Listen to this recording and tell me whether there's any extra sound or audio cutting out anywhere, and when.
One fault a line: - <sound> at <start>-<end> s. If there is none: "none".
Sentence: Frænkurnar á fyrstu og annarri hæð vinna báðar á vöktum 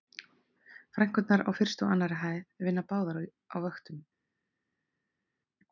none